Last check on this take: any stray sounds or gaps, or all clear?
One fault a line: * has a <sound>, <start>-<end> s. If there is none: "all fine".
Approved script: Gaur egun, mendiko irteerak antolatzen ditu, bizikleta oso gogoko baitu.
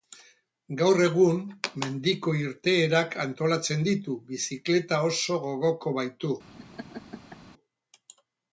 * has a laugh, 6.6-7.4 s